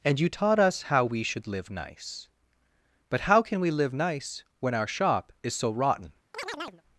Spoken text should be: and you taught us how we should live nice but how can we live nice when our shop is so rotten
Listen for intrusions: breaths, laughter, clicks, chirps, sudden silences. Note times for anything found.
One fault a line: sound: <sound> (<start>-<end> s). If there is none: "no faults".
sound: chirp (6.3-6.8 s)